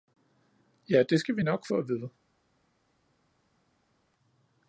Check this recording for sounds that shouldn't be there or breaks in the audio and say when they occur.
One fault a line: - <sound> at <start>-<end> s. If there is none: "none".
none